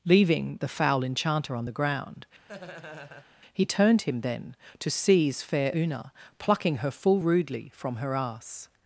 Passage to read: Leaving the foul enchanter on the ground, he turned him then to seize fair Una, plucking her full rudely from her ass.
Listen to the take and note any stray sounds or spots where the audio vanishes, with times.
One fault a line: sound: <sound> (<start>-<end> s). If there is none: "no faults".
sound: laugh (2.5-3.3 s)